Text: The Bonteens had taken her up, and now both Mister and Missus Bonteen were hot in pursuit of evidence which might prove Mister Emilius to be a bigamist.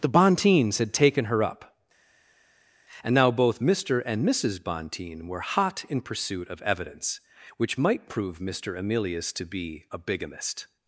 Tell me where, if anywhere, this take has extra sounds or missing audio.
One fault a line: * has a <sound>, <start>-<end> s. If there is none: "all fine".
all fine